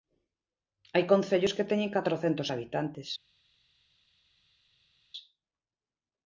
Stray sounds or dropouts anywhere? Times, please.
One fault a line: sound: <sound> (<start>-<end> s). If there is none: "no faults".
no faults